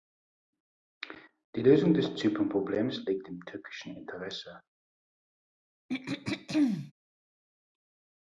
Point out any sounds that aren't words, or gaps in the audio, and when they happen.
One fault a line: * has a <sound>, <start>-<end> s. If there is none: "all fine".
* has a throat clearing, 5.9-6.9 s